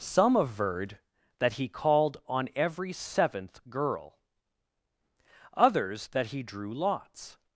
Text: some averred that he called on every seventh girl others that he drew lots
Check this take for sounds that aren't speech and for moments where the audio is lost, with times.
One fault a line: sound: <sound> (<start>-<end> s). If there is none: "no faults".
no faults